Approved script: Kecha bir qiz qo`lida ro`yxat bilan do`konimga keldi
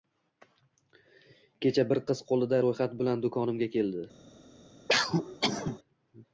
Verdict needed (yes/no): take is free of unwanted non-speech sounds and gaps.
no